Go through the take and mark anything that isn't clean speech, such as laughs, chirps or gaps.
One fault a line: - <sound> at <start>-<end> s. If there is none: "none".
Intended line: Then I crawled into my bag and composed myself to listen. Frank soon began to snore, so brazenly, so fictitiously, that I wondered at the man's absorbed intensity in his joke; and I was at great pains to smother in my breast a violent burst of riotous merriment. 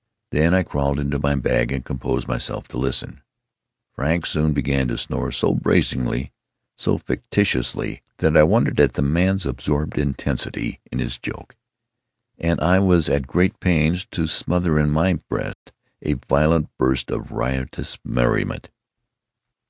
- dropout at 15.5-15.7 s